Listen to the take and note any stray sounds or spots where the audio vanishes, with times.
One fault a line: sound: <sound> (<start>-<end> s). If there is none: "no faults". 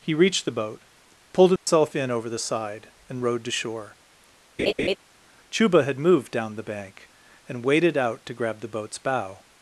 sound: dropout (1.6-1.7 s)
sound: laugh (4.6-5.0 s)